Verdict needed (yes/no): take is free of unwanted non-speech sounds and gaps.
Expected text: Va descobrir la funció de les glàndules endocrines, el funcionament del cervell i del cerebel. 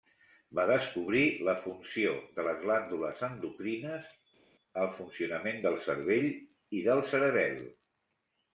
yes